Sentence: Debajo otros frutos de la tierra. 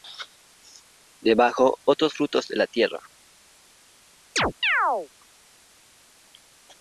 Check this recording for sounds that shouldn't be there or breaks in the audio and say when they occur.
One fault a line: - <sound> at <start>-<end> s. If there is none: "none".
- chirp at 4.4-5.1 s